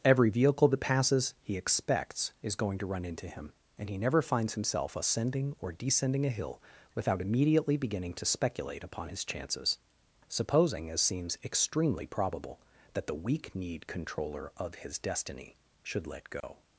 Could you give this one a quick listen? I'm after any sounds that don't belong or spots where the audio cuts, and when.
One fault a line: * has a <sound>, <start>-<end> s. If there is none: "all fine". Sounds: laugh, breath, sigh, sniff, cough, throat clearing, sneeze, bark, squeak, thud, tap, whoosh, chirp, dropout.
* has a dropout, 16.4-16.4 s